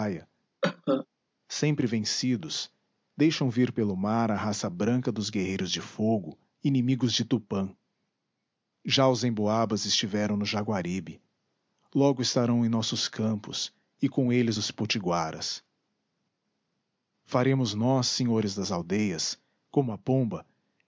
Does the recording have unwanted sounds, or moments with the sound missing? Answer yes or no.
yes